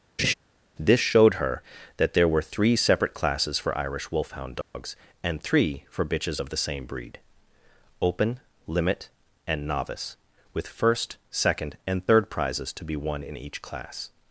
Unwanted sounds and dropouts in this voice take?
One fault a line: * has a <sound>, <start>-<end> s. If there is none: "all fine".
* has a laugh, 0.2-0.3 s
* has a dropout, 4.6-4.7 s